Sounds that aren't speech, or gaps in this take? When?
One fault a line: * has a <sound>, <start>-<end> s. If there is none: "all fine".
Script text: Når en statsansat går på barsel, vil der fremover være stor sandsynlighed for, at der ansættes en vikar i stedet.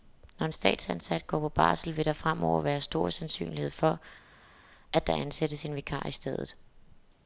all fine